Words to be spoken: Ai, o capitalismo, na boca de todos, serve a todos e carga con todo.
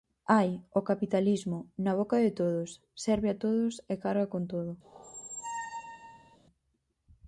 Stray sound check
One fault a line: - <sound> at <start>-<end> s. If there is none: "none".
- squeak at 4.8-6.4 s